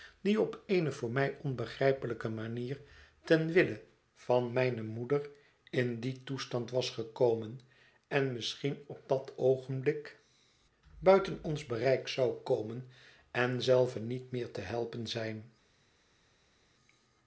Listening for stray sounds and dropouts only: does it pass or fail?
pass